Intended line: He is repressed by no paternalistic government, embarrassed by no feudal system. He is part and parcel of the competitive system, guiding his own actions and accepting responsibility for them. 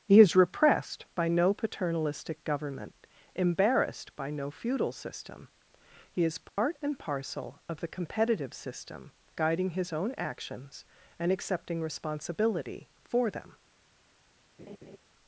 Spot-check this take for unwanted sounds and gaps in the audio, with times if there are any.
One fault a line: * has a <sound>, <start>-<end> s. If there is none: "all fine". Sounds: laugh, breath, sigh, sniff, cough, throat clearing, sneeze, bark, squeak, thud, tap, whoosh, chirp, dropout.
* has a dropout, 6.5-6.6 s
* has a laugh, 14.6-15.0 s